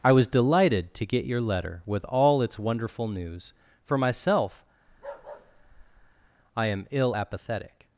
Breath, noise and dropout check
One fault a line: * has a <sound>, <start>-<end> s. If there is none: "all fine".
* has a bark, 4.9-6.3 s